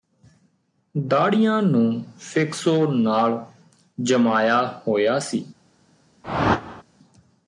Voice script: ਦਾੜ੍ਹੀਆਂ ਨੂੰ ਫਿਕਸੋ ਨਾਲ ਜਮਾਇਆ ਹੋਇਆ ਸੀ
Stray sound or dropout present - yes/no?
yes